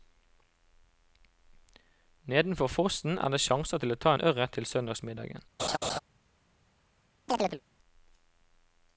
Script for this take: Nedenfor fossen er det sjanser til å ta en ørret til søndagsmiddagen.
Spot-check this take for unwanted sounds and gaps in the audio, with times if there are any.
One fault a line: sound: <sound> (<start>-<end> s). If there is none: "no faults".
sound: laugh (5.6-6.0 s)
sound: chirp (7.3-7.6 s)